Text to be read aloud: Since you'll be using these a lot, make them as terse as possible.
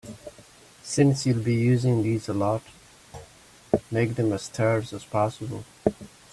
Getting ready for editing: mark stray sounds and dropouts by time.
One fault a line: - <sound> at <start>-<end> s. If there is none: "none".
- thud at 3.1-3.4 s